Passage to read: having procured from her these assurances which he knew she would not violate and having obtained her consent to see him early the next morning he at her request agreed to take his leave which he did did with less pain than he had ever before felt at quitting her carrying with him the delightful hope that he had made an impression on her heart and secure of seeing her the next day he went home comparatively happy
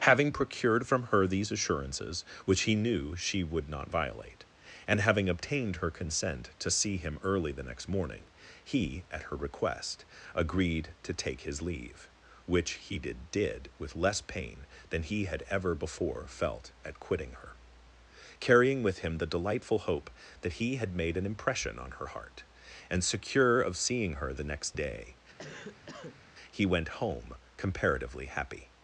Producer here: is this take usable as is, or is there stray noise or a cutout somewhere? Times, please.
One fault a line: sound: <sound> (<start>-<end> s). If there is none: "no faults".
sound: cough (25.4-26.2 s)